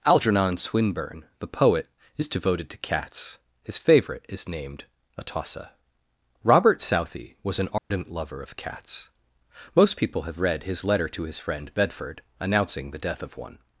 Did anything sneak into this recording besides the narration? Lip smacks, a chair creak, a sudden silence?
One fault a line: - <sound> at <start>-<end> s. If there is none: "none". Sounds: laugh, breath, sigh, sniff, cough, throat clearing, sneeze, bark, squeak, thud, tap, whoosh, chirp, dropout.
- dropout at 7.8-7.9 s